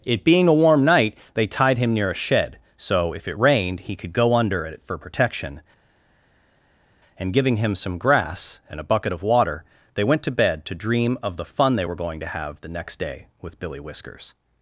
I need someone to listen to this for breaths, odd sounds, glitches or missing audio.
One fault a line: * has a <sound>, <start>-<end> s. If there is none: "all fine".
all fine